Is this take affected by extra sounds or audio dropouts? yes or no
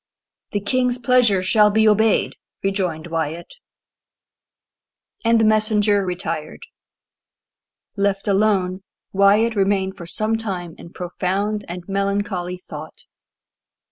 no